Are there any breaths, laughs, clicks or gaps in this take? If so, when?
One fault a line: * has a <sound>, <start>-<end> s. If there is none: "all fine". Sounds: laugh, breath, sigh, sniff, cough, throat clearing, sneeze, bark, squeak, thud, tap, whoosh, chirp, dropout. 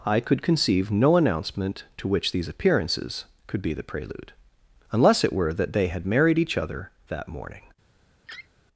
* has a laugh, 8.3-8.5 s